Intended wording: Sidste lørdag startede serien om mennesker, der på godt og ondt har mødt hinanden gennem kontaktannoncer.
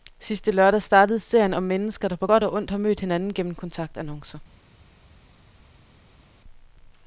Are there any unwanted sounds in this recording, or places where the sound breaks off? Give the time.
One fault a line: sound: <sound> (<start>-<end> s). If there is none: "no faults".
no faults